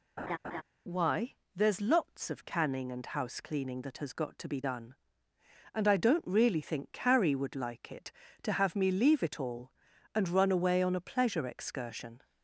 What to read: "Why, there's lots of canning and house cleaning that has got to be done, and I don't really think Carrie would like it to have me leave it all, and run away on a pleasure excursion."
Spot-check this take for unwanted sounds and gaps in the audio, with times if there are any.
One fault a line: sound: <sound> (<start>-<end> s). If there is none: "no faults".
sound: laugh (0.2-0.6 s)